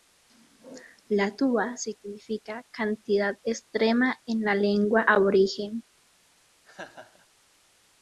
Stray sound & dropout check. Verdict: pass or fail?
fail